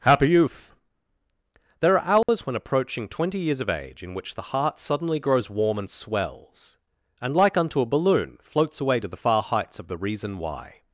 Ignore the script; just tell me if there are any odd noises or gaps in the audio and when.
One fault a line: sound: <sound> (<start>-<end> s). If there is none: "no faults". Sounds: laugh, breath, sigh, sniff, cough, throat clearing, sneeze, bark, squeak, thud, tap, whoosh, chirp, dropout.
sound: dropout (2.2-2.3 s)